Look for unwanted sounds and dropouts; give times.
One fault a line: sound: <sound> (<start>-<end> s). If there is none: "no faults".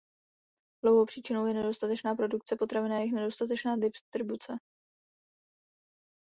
no faults